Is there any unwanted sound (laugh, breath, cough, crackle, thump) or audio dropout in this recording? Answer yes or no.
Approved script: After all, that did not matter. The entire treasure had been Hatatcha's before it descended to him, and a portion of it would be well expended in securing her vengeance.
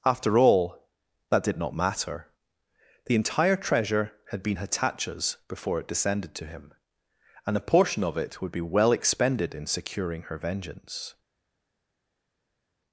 no